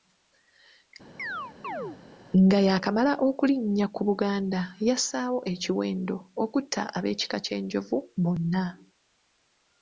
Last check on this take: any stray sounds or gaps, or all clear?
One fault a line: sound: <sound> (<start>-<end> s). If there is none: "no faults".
sound: chirp (1.2-2.0 s)